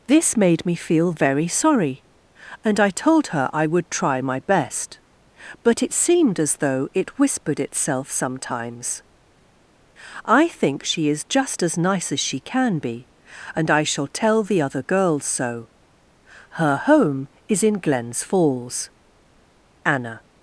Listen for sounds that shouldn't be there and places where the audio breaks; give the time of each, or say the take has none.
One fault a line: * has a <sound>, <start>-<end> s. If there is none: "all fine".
all fine